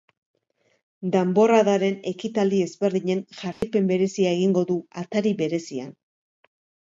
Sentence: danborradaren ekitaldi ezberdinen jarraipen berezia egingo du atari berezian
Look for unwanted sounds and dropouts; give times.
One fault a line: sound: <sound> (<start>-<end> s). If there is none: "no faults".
sound: dropout (3.5-3.6 s)